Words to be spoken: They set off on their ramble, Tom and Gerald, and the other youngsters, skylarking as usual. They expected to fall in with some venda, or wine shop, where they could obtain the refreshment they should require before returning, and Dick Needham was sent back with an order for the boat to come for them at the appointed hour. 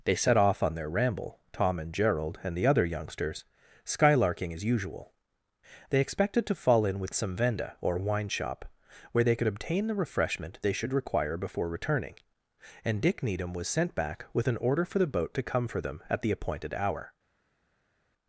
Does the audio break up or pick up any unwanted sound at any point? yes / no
no